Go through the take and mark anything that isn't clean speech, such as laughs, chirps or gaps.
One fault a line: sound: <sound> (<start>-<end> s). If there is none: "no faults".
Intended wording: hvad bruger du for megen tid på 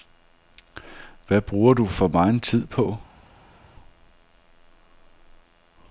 no faults